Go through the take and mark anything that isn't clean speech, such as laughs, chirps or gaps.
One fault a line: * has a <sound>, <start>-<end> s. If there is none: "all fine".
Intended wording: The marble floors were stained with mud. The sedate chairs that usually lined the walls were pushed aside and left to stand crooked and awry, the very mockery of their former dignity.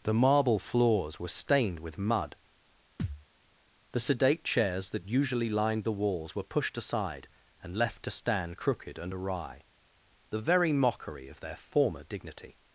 * has a thud, 3.0-3.3 s